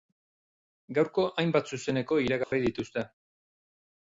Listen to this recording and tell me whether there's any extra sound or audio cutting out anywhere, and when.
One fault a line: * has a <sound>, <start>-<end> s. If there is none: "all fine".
* has a dropout, 2.4-2.5 s